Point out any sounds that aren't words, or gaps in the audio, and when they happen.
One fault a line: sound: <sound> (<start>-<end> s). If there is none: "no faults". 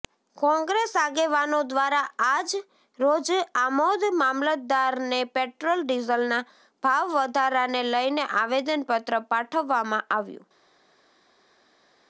no faults